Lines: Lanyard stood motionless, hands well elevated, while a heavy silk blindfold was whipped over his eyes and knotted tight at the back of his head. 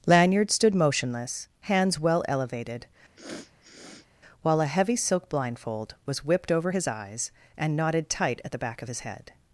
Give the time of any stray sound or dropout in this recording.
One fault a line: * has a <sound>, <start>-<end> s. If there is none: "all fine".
* has a sniff, 3.2-4.1 s